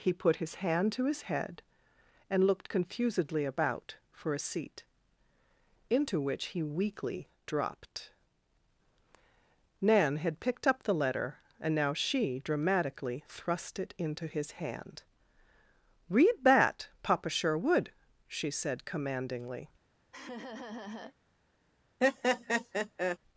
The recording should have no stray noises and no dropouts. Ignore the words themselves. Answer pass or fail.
fail